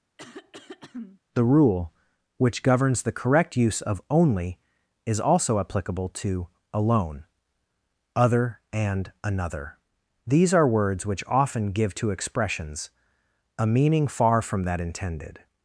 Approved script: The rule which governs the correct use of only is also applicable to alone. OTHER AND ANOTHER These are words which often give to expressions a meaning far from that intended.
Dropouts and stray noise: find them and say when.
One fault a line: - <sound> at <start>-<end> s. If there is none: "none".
- throat clearing at 0.2-1.2 s